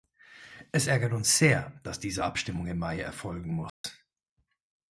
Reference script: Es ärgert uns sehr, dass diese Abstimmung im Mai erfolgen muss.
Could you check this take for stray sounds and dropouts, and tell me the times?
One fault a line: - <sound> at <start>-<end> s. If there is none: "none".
- dropout at 3.7-3.8 s